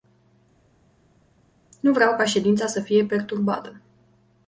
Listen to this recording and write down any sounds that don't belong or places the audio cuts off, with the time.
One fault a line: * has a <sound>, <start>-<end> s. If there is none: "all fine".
all fine